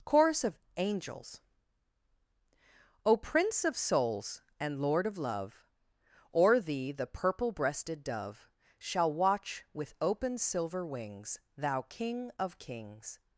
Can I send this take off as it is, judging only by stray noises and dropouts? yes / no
yes